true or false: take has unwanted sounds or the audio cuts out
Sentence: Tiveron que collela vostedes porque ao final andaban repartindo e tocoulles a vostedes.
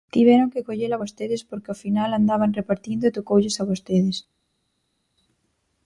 false